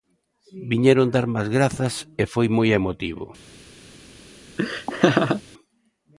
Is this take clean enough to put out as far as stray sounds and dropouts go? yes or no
no